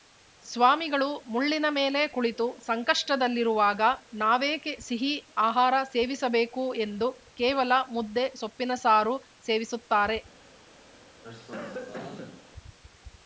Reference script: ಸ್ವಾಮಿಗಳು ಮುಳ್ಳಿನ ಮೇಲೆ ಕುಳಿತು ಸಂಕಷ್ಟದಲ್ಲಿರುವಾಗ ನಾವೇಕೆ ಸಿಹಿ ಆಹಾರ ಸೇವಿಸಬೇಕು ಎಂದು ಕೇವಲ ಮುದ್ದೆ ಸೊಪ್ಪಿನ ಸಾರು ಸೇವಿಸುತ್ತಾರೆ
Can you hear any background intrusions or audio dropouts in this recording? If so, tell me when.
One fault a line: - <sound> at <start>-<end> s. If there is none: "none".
- cough at 11.2-12.5 s